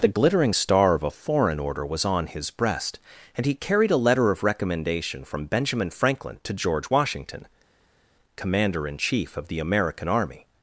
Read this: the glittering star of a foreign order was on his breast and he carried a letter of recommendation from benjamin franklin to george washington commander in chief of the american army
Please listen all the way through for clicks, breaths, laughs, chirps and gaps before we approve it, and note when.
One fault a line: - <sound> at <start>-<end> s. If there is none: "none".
none